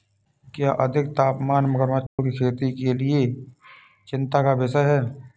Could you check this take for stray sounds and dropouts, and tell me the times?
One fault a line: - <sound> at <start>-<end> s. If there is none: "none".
- dropout at 2.1-2.2 s